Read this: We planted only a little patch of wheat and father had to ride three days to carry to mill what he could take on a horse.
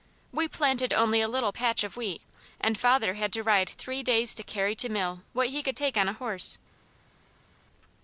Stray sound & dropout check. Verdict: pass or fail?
pass